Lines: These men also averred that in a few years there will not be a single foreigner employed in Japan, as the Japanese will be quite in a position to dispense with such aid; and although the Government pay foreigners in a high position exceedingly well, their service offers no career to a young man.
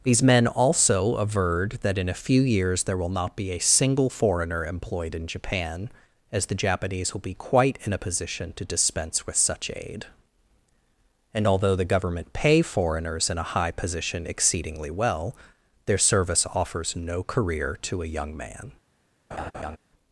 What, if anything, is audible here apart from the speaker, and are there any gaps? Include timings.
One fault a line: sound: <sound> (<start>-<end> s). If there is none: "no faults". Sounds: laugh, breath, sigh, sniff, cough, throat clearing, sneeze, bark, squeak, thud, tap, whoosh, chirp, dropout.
sound: laugh (19.3-19.8 s)